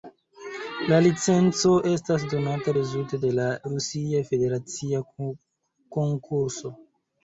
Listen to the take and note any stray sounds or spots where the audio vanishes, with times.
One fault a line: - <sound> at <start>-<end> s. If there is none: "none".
none